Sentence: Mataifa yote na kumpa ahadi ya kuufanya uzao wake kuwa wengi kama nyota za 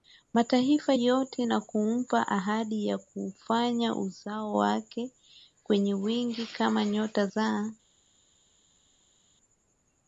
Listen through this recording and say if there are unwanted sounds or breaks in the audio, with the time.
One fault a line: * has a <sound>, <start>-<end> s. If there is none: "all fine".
all fine